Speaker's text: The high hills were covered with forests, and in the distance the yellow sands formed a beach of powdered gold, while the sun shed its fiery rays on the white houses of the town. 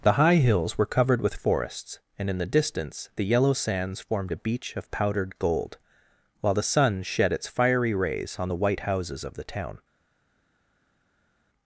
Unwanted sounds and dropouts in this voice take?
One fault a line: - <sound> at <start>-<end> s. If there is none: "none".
none